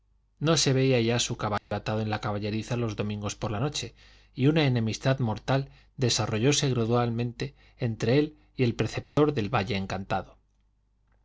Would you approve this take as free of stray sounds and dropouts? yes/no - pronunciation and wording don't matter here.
no